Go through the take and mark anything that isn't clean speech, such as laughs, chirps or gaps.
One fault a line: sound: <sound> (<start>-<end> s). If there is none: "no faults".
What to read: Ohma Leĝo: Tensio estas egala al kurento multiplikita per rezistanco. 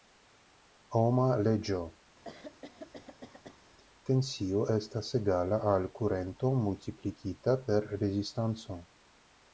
sound: throat clearing (2.2-3.6 s)